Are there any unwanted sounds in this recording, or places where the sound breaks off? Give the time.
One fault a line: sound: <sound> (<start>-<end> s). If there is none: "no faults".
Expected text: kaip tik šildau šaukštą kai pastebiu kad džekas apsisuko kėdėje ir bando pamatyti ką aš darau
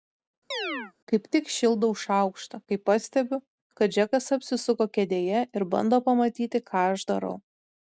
sound: chirp (0.5-0.9 s)